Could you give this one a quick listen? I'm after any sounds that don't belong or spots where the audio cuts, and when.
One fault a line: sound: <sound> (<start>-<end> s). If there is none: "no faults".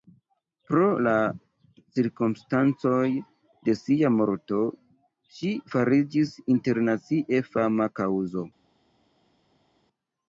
no faults